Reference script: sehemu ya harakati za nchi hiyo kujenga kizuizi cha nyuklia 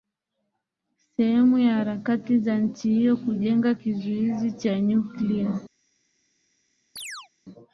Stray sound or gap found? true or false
true